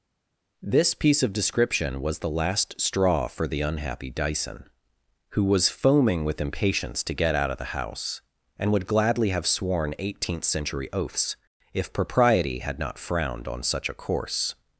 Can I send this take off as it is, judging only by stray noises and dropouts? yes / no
yes